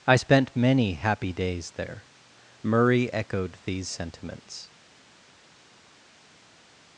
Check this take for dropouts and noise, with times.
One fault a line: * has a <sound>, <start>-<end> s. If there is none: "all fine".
all fine